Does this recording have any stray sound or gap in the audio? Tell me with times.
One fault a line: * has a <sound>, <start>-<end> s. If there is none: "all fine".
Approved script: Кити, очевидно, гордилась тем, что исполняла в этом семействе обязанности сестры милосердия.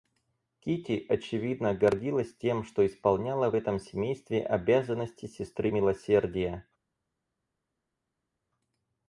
all fine